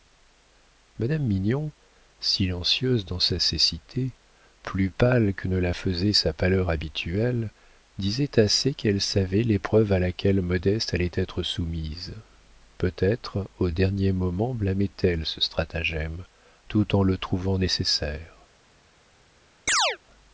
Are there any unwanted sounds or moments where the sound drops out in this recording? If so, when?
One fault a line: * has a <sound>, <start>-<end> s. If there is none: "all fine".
* has a chirp, 19.7-20.0 s